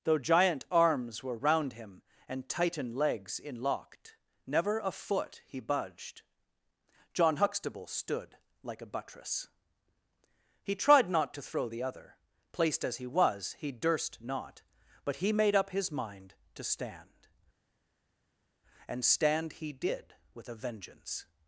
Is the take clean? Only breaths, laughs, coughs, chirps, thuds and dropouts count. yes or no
yes